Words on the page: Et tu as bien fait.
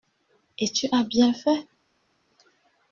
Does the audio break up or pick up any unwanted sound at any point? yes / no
no